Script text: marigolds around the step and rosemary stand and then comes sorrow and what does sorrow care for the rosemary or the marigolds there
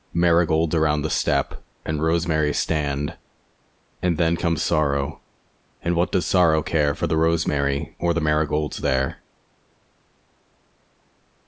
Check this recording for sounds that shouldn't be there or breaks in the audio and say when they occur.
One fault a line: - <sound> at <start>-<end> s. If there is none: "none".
none